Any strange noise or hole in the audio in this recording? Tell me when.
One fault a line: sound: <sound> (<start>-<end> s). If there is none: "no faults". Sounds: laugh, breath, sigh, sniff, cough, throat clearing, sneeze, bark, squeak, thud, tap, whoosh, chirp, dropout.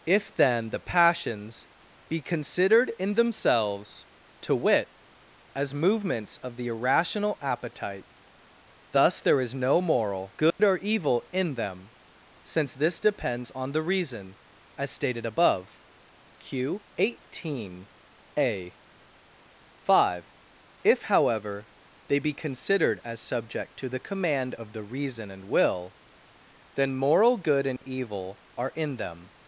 sound: dropout (10.5-10.6 s)
sound: dropout (27.8-27.8 s)